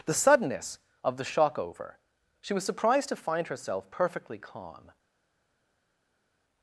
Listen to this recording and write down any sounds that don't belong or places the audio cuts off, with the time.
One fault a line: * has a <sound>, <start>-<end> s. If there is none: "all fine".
all fine